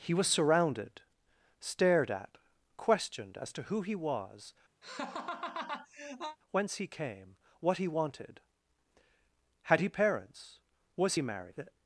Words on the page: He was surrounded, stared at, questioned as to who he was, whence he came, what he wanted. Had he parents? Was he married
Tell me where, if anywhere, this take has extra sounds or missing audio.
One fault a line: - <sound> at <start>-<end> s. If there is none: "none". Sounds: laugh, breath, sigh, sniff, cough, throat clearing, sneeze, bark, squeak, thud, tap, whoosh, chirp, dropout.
- laugh at 4.8-6.4 s